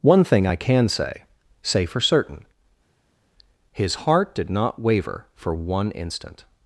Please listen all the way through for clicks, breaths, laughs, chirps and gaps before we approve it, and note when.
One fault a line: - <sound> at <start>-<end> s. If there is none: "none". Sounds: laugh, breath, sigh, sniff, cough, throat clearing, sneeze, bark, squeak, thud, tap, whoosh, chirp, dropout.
none